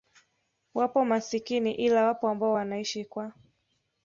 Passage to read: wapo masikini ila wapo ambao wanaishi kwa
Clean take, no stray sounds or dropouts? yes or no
yes